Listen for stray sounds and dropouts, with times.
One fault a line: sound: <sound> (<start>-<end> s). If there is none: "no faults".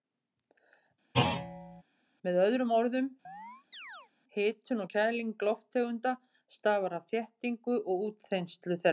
sound: thud (1.1-1.8 s)
sound: chirp (3.2-4.1 s)